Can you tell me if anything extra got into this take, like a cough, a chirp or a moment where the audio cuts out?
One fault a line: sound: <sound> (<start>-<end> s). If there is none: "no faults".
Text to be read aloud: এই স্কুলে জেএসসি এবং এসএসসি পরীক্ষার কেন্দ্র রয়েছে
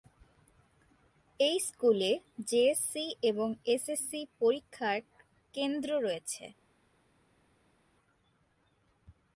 no faults